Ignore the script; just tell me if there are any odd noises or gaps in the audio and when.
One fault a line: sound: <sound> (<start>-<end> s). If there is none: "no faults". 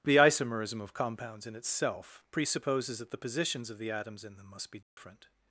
sound: dropout (4.8-5.0 s)